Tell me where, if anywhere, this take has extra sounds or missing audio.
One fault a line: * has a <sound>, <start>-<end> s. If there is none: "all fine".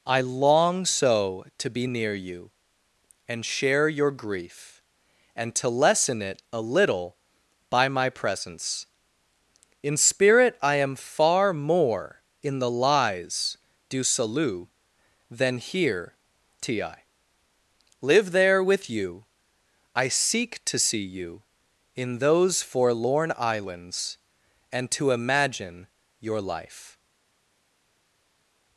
all fine